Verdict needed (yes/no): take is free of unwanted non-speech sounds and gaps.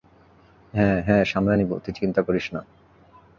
yes